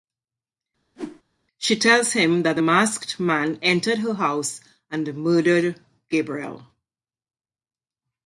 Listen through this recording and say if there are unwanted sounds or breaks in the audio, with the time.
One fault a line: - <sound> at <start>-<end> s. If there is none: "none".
- whoosh at 1.0-1.2 s